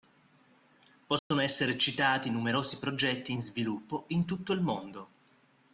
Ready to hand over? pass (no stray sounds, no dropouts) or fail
fail